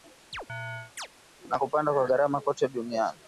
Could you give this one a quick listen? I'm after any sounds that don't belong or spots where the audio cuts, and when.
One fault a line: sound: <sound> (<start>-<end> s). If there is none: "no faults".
sound: chirp (0.3-1.1 s)